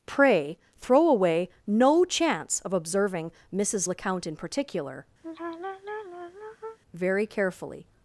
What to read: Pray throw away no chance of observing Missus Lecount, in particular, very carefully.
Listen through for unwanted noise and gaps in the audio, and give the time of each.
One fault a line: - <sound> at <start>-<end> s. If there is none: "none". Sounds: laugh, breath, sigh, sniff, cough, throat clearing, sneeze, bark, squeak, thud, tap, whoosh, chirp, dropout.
- sigh at 5.2-6.8 s